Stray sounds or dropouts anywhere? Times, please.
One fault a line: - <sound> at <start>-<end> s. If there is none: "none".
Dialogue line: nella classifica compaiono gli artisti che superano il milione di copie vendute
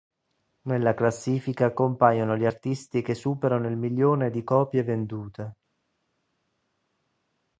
none